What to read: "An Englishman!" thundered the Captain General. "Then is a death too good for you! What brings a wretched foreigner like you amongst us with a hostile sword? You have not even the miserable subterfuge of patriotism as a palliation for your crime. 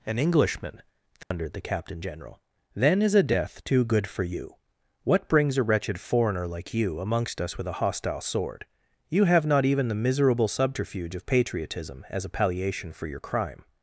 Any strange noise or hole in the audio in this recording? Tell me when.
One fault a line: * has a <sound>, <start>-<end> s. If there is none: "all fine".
* has a dropout, 1.2-1.3 s